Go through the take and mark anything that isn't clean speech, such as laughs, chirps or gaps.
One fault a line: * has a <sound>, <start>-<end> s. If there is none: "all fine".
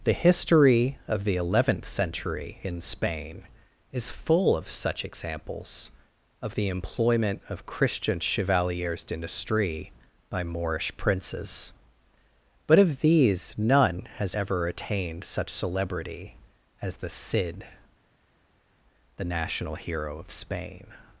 all fine